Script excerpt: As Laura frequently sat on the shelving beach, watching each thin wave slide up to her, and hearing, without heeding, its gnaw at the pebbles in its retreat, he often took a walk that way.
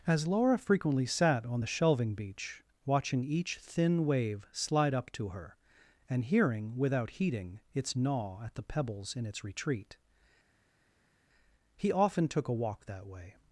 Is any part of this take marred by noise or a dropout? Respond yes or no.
no